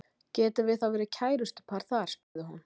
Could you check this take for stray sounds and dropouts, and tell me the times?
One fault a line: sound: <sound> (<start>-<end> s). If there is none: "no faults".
sound: dropout (2.2-2.4 s)